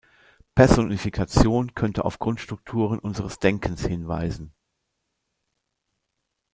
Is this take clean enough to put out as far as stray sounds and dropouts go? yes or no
yes